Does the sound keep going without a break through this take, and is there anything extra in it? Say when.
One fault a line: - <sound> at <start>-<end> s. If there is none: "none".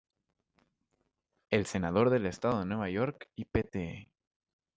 none